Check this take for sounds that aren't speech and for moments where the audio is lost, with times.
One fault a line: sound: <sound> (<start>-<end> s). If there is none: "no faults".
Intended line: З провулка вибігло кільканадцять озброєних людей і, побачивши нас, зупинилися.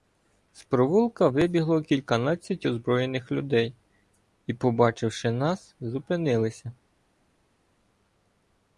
no faults